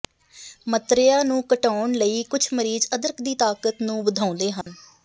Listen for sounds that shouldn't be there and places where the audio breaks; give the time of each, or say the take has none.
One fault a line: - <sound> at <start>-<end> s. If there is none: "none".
- dropout at 4.6-4.7 s